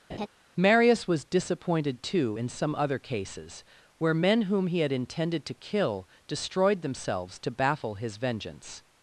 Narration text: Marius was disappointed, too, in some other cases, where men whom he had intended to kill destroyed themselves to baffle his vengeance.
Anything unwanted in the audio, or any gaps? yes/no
yes